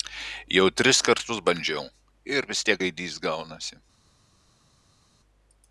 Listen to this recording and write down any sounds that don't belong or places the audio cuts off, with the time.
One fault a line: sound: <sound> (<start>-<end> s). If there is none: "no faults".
no faults